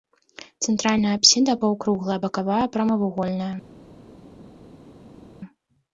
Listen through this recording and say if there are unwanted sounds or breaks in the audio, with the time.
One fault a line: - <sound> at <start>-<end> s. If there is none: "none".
none